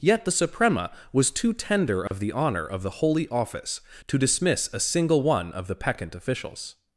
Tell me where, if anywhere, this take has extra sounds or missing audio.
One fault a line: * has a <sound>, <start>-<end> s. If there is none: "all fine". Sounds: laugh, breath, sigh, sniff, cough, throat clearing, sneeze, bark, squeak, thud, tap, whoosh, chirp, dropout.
* has a dropout, 2.1-2.1 s